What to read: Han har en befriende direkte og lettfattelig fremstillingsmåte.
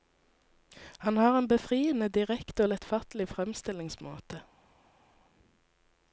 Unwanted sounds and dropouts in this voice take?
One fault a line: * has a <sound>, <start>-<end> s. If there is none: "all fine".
all fine